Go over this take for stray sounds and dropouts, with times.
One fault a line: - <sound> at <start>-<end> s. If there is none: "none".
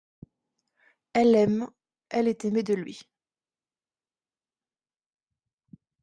none